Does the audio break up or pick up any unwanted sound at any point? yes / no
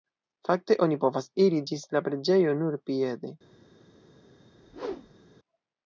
yes